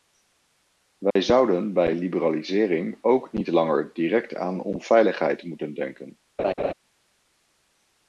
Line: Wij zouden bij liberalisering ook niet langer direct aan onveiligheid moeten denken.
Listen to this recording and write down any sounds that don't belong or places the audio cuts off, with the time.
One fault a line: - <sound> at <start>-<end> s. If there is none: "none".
- dropout at 1.1-1.2 s
- laugh at 6.4-6.7 s